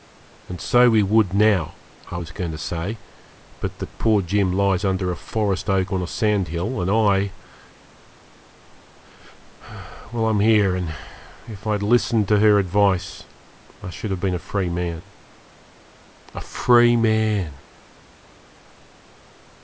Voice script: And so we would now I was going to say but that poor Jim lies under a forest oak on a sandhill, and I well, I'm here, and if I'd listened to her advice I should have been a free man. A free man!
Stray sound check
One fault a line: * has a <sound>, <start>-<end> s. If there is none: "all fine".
all fine